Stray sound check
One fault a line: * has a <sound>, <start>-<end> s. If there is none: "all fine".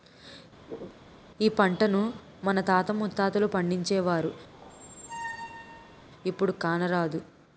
* has a throat clearing, 0.7-1.0 s
* has a squeak, 4.5-6.0 s